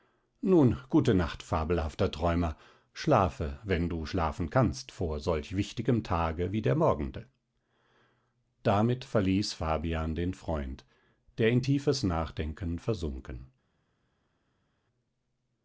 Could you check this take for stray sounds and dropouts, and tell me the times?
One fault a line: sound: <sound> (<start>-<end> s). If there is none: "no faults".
no faults